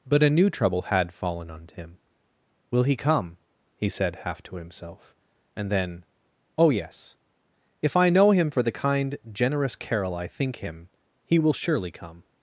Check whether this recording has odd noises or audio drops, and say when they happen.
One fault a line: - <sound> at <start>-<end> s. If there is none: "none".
none